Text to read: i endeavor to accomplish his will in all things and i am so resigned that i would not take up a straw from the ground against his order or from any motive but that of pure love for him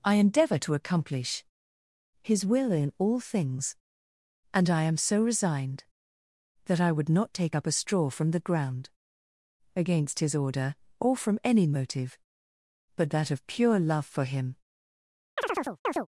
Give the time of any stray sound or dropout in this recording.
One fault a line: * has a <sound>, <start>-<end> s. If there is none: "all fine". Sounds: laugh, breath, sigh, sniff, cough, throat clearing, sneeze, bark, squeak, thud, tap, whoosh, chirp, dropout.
* has a chirp, 15.4-16.1 s